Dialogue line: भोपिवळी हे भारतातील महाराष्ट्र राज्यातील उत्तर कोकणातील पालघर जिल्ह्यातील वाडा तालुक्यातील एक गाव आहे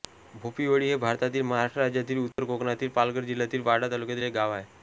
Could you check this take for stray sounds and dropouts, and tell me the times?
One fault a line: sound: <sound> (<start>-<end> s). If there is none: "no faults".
sound: dropout (2.3-2.4 s)